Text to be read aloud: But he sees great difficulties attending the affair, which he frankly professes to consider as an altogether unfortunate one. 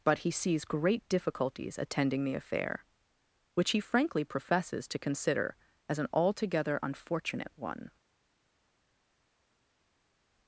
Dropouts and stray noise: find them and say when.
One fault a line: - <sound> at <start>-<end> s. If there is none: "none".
none